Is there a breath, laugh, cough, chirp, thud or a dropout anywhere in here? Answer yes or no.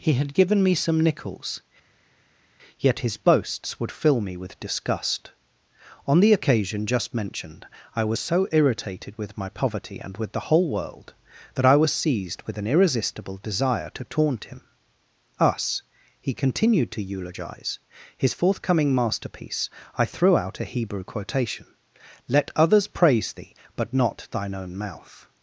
no